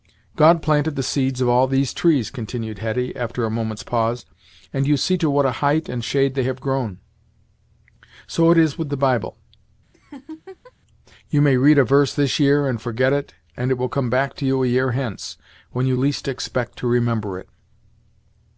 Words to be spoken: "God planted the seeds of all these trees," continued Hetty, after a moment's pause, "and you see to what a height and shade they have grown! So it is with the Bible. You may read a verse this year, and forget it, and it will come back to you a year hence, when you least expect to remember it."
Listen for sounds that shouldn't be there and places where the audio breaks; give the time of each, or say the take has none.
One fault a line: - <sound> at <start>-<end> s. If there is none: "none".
- laugh at 9.9-10.7 s